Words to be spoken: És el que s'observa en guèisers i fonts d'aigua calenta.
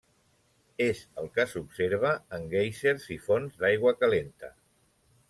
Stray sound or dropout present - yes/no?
no